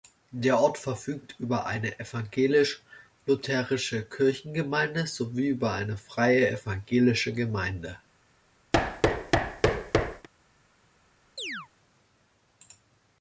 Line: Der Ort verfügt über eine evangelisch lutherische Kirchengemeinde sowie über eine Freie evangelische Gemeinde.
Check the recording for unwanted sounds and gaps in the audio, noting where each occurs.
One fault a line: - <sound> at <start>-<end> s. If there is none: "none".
- thud at 8.7-10.3 s
- chirp at 11.4-11.7 s